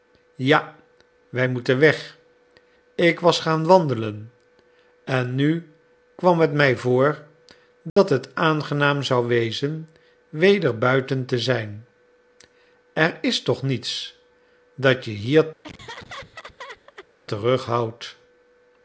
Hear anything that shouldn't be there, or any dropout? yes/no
yes